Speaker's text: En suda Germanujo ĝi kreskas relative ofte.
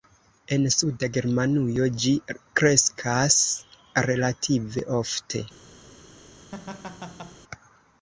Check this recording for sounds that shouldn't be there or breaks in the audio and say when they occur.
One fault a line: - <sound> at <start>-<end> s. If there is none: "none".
- laugh at 6.5-7.4 s